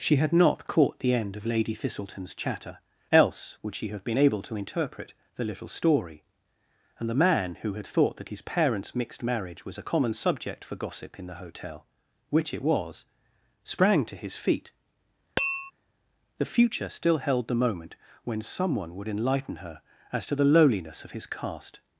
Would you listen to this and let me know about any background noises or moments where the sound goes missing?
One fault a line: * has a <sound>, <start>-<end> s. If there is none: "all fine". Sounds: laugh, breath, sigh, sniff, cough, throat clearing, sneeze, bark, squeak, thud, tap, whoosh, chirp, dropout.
* has a tap, 15.4-15.7 s